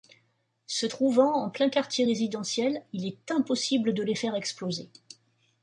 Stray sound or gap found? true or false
false